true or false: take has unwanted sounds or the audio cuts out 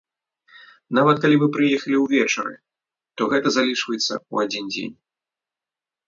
false